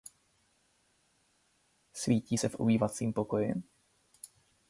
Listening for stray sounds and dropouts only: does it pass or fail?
pass